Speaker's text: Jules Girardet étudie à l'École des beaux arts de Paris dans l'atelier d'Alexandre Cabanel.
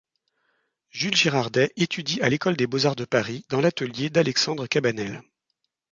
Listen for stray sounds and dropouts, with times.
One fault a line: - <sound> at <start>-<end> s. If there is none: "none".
none